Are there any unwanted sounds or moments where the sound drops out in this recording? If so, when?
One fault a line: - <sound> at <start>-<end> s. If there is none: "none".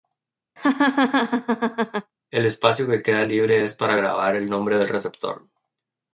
- laugh at 0.6-2.1 s